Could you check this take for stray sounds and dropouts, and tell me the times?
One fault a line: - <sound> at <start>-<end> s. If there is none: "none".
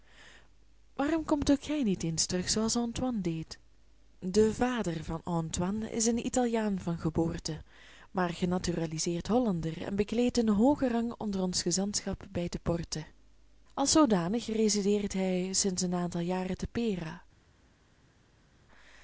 none